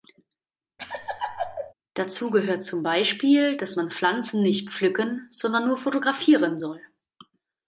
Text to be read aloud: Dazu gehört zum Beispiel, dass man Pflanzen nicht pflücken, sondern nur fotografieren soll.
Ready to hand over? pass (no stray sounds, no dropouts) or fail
fail